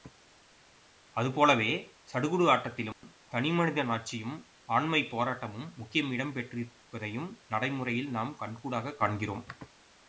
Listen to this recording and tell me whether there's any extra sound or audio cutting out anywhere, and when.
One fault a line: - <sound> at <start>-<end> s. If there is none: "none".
- dropout at 2.9-3.0 s